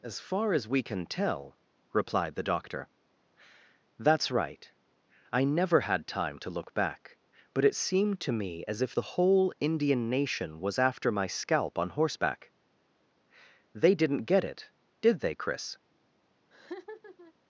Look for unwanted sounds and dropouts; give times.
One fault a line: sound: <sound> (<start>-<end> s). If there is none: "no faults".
sound: laugh (16.5-17.3 s)